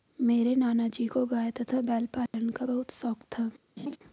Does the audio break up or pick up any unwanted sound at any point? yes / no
yes